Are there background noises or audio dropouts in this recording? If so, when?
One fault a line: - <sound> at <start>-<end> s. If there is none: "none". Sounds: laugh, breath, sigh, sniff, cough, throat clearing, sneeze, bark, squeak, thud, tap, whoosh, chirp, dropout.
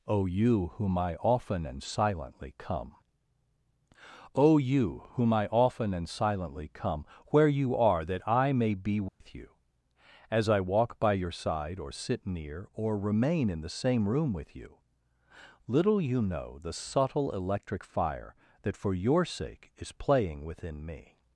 - dropout at 9.1-9.2 s